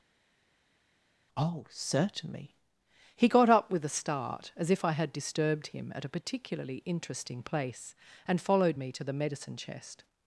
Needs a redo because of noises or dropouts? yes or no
no